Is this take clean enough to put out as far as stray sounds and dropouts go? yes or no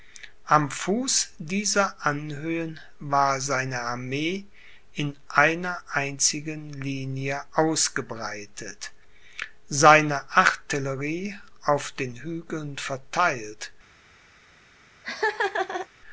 no